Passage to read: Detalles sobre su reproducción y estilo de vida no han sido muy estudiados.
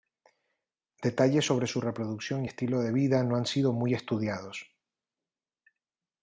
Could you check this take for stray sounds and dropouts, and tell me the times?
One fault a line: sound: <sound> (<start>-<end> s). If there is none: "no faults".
no faults